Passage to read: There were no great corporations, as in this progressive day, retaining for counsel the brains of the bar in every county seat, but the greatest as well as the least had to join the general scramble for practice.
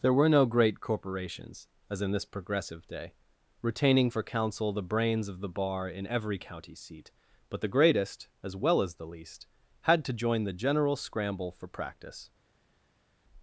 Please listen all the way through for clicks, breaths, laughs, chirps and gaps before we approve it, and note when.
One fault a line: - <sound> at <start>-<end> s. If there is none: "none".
none